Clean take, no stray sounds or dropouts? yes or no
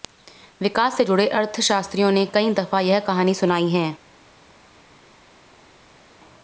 yes